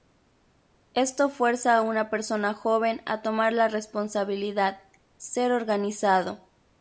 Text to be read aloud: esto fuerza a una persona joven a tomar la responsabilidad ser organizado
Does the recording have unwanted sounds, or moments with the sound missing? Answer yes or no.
no